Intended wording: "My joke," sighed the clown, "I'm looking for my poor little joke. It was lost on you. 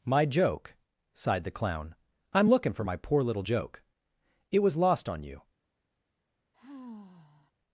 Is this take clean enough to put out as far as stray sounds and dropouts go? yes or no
no